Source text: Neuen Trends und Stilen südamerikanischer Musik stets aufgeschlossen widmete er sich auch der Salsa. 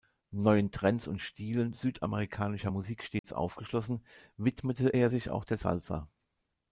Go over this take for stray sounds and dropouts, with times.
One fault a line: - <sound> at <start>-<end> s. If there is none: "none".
- dropout at 3.2-3.2 s